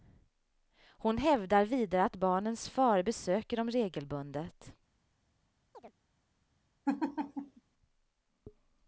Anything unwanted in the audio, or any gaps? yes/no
yes